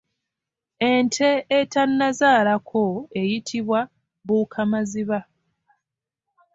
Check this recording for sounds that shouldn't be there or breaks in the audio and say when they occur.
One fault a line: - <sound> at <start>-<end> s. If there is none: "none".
none